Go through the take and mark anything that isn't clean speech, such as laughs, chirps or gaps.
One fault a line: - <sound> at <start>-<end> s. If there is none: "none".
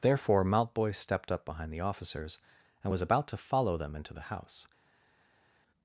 none